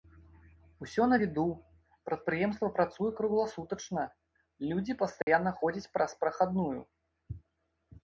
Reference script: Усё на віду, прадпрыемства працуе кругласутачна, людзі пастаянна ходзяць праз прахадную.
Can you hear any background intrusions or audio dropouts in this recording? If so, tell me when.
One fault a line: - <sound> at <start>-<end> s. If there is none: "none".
- dropout at 5.2-5.3 s